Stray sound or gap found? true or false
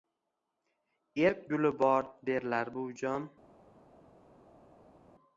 false